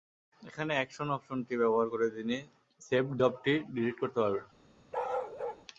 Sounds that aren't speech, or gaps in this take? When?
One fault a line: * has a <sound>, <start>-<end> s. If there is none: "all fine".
* has a bark, 4.9-5.7 s